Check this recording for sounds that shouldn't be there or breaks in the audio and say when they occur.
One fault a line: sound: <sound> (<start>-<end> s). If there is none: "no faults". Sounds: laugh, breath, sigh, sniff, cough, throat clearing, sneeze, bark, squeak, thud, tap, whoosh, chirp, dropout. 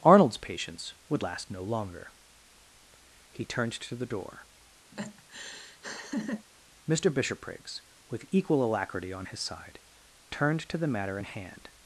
sound: laugh (4.9-6.5 s)